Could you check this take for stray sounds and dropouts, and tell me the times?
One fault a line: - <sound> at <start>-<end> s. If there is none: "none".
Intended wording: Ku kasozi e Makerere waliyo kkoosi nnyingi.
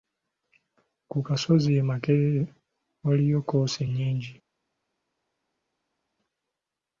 none